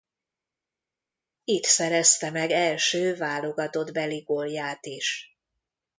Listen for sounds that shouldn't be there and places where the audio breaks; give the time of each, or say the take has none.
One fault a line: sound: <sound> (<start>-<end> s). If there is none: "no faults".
no faults